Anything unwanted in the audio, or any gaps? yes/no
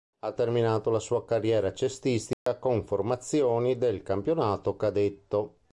yes